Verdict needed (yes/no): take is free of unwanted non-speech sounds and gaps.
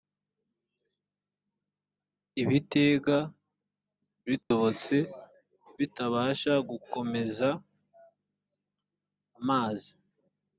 no